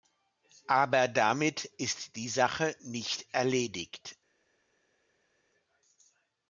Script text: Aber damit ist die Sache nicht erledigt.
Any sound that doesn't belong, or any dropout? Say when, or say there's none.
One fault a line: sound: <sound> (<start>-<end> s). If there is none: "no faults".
no faults